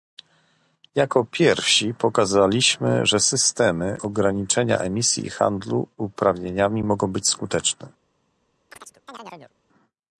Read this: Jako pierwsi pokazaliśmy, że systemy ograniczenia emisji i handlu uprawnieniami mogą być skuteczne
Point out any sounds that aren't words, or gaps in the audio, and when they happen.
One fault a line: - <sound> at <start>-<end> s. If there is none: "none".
- chirp at 8.7-9.5 s